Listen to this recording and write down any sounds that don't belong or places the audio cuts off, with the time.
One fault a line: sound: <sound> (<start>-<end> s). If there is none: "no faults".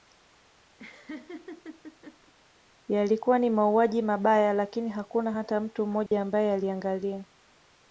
sound: laugh (0.8-2.3 s)
sound: dropout (6.1-6.1 s)